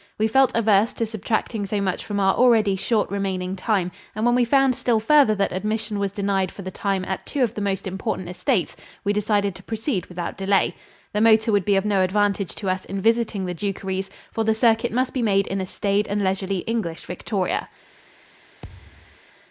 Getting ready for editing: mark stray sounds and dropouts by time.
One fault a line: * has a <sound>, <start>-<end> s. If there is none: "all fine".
* has a thud, 18.6-19.2 s